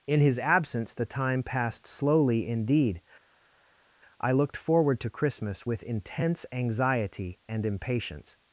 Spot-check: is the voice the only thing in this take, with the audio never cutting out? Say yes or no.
yes